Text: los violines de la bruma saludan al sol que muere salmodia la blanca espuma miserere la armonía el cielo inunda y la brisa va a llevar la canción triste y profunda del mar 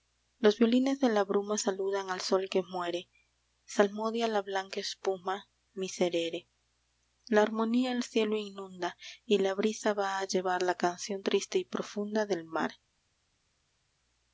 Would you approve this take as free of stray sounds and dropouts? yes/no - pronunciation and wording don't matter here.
yes